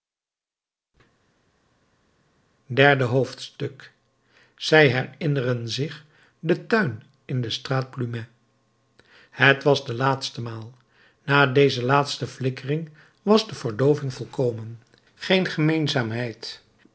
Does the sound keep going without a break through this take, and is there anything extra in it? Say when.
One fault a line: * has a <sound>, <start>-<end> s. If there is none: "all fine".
all fine